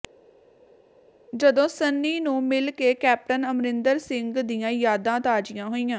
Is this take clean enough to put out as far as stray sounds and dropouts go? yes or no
yes